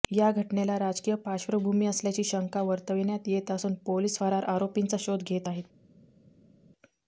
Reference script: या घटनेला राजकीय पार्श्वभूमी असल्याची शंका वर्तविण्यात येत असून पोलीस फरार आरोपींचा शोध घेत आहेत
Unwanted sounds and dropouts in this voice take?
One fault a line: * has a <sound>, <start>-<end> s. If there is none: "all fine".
all fine